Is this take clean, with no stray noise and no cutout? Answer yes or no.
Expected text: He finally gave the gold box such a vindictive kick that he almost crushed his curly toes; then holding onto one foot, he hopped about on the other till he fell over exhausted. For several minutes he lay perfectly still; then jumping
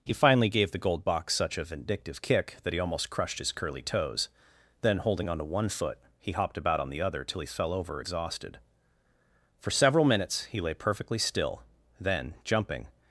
yes